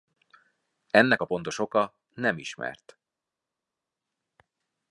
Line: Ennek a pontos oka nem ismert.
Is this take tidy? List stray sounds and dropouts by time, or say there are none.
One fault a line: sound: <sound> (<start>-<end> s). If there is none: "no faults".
no faults